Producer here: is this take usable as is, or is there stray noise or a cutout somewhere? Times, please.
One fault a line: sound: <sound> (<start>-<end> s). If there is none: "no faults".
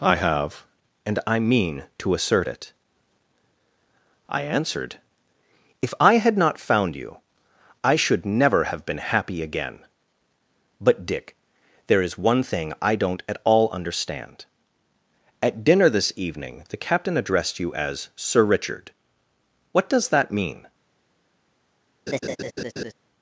sound: laugh (22.1-22.9 s)